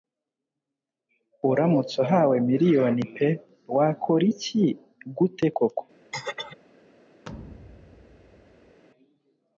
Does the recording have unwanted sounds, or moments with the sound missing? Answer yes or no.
yes